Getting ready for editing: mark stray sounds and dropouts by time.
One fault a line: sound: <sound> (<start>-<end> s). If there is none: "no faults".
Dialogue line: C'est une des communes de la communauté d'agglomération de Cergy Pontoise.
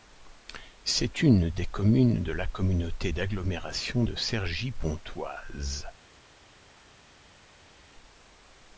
no faults